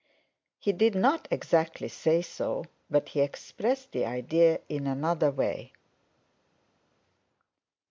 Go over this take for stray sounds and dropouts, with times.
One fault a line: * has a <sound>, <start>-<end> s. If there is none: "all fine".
all fine